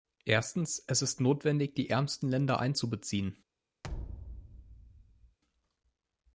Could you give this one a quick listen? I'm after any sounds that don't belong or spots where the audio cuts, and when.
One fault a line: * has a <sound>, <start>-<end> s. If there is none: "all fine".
* has a thud, 3.8-5.4 s